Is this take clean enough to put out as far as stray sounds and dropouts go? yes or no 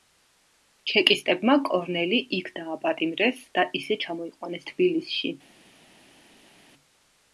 yes